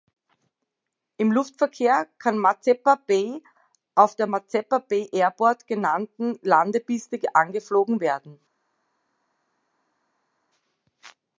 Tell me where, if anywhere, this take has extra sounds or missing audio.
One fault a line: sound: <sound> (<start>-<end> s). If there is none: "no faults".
no faults